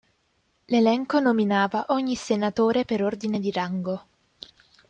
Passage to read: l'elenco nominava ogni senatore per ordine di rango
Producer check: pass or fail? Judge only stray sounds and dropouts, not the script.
pass